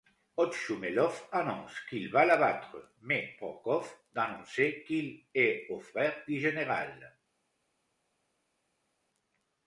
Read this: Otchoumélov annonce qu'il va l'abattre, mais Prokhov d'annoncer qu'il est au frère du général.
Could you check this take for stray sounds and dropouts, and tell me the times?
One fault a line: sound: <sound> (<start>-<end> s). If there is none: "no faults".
no faults